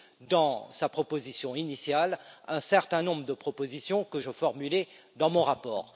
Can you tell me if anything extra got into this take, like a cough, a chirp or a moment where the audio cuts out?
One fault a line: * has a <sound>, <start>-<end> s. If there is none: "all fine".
all fine